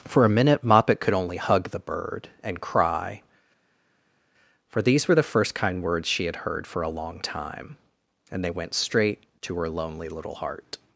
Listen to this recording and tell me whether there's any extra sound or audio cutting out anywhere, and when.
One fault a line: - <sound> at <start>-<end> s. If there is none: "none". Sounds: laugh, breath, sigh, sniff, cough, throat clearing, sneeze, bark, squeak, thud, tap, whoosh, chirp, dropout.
none